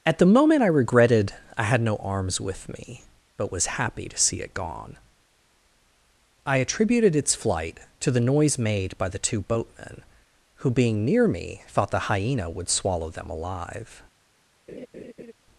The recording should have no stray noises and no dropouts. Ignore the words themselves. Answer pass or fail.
fail